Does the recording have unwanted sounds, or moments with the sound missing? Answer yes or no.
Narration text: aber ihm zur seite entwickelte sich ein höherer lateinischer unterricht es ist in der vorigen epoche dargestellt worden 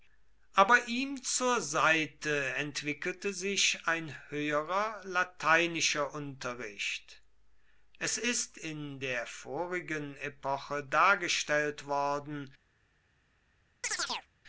yes